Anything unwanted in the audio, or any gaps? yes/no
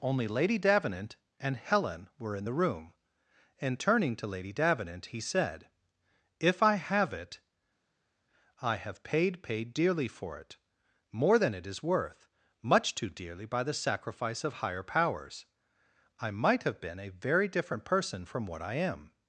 no